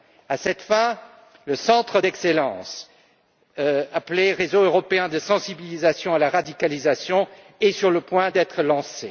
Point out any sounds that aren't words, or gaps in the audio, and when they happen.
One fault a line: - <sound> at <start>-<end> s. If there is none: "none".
none